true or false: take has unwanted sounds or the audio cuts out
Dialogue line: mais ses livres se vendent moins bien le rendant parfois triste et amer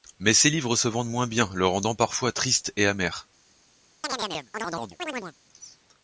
true